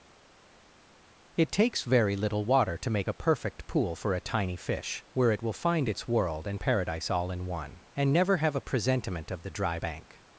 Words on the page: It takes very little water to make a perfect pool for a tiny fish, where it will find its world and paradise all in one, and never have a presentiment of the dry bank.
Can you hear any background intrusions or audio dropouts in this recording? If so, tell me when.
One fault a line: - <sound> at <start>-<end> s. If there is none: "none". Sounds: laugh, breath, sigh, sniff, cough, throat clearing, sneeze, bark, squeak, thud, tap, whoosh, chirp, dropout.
none